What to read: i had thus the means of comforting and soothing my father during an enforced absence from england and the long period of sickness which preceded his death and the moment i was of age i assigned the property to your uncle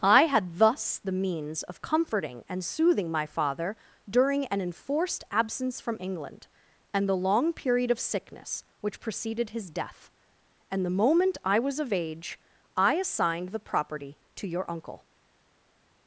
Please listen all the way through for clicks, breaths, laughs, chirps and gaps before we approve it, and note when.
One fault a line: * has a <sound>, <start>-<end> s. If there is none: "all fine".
all fine